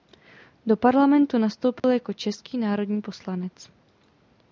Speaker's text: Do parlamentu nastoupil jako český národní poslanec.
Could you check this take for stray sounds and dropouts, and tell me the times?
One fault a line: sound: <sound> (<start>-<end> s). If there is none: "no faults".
sound: dropout (1.8-1.8 s)